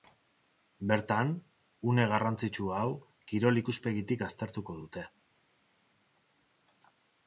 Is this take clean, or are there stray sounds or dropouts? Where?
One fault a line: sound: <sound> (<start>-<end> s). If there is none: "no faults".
no faults